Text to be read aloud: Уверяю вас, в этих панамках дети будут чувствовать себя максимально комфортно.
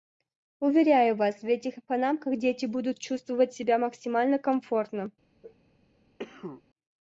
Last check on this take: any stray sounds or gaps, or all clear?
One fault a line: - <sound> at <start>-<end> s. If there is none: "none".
- sneeze at 5.4-5.6 s
- cough at 6.2-6.6 s